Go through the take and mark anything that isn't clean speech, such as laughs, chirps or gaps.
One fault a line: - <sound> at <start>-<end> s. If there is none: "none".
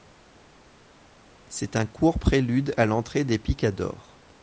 none